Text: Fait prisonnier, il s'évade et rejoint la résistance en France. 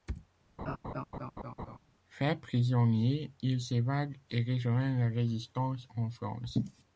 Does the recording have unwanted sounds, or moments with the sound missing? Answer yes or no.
yes